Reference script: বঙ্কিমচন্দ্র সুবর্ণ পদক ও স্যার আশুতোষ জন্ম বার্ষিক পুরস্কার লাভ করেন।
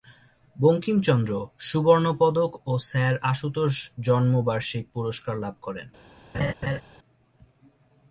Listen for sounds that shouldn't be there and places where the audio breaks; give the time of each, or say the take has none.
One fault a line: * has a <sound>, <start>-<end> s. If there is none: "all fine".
* has a laugh, 6.3-6.8 s